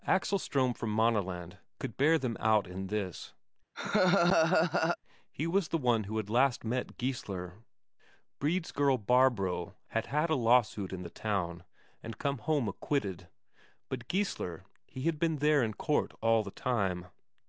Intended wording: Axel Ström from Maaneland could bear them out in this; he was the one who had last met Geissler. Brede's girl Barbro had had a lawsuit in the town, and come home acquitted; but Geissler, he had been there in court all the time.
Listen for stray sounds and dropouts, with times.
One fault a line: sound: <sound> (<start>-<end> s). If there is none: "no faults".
sound: laugh (3.7-5.0 s)